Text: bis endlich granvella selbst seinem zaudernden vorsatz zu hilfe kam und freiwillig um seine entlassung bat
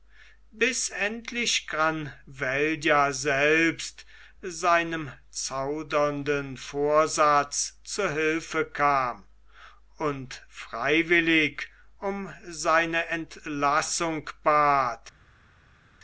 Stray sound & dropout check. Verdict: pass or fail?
pass